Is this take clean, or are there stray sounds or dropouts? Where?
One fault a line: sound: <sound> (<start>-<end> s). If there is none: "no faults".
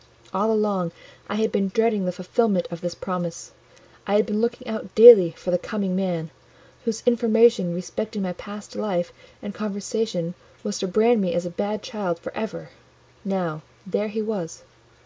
no faults